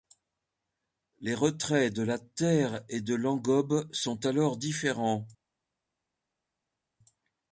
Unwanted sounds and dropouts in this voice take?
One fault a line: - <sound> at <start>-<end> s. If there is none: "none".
none